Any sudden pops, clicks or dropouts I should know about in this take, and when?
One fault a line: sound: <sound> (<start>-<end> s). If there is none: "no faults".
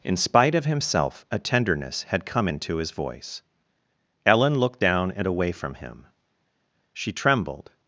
no faults